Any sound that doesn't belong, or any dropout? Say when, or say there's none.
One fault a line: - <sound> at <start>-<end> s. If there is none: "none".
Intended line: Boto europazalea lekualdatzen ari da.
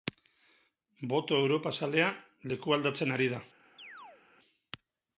- chirp at 3.8-4.2 s